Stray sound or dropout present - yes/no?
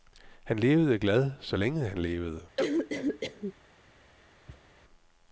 yes